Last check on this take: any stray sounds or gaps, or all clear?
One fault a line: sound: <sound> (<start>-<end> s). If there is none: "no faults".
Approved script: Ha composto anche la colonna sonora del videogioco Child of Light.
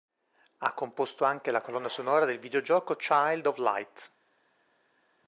no faults